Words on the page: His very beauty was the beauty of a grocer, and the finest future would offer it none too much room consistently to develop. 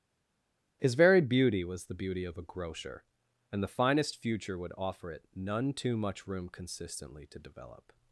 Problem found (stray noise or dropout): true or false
false